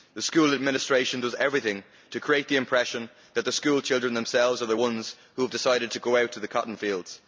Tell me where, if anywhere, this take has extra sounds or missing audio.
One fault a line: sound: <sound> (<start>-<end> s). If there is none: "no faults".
no faults